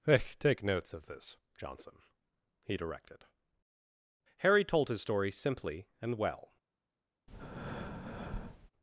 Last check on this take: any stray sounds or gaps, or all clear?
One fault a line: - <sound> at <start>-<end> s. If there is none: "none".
- breath at 7.3-8.7 s